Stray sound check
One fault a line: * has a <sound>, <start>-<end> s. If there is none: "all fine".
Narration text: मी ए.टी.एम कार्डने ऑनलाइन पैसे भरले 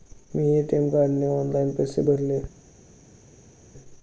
all fine